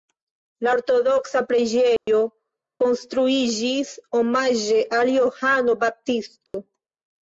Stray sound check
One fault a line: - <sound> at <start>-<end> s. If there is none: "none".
- dropout at 2.0-2.1 s
- dropout at 6.5-6.5 s